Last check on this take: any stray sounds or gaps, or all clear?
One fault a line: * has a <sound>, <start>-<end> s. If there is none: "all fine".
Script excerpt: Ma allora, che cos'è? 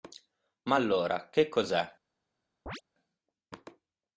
* has a chirp, 2.7-2.8 s